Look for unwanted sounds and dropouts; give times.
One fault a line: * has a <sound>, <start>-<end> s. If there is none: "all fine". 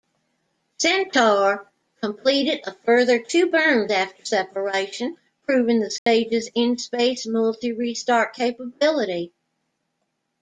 * has a dropout, 6.0-6.1 s